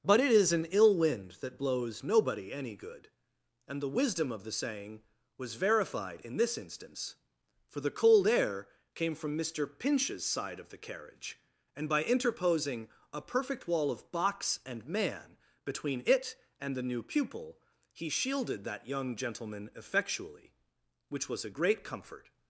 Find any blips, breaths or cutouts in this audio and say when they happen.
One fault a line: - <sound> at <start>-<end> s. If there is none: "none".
none